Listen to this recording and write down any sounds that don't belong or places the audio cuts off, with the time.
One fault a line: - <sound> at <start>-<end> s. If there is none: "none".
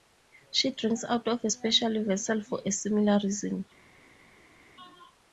none